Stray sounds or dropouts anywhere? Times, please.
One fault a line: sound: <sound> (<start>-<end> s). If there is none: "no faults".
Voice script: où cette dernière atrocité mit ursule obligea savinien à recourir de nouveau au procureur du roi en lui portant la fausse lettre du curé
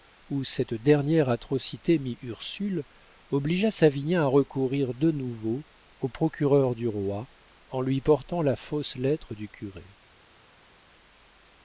no faults